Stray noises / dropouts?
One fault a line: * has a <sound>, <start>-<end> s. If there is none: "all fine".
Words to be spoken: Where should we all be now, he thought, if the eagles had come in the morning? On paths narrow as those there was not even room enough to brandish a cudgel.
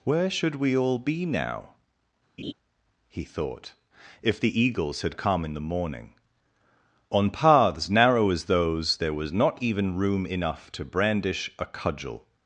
* has a laugh, 2.4-2.5 s